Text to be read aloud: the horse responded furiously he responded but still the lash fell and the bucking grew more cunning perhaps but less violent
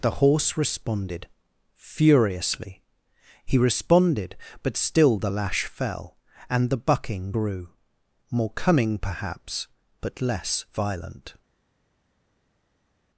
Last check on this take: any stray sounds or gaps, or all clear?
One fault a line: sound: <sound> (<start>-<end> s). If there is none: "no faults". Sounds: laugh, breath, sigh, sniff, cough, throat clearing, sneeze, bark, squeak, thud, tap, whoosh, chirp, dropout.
no faults